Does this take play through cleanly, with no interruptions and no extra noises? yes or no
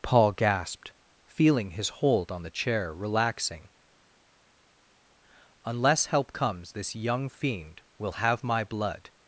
yes